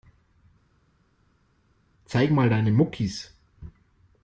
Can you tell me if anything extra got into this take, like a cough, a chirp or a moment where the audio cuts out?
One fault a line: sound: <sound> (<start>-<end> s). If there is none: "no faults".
no faults